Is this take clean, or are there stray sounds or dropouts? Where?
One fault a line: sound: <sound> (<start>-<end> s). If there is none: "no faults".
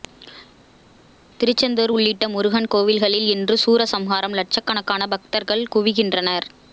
no faults